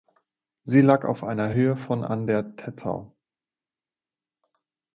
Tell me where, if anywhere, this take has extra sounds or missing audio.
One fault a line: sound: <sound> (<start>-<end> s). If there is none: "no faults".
no faults